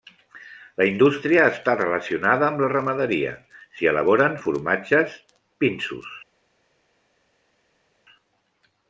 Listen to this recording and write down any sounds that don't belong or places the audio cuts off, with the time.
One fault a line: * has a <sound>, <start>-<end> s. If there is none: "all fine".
all fine